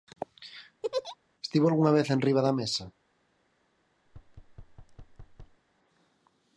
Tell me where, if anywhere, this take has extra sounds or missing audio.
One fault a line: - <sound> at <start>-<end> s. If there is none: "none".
- laugh at 0.8-1.2 s
- thud at 4.1-5.6 s